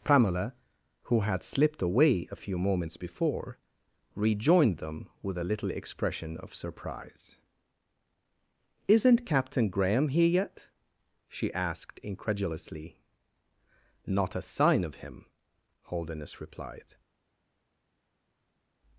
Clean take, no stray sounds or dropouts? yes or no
yes